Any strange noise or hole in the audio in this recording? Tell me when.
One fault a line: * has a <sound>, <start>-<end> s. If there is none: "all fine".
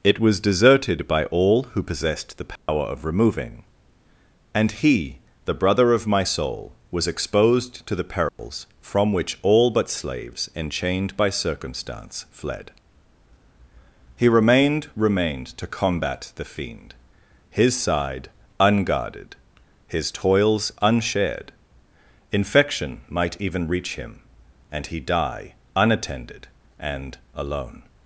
* has a dropout, 2.6-2.7 s
* has a dropout, 8.3-8.4 s